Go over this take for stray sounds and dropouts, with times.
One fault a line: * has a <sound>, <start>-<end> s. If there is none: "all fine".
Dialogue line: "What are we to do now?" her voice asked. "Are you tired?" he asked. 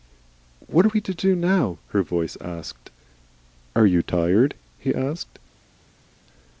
all fine